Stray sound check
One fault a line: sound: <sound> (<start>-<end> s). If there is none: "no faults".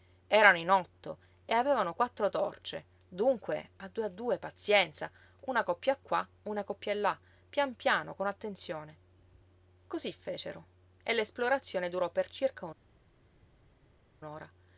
no faults